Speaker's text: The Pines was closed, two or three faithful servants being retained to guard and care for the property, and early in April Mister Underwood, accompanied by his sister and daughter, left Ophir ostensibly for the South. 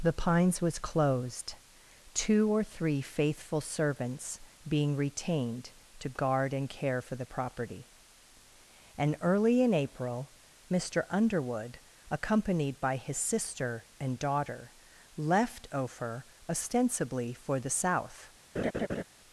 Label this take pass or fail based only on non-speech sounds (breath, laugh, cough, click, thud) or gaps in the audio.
fail